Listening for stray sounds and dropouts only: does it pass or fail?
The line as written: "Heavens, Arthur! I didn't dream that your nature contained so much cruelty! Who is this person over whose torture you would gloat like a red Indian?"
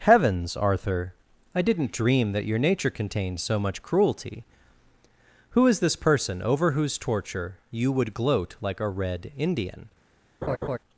fail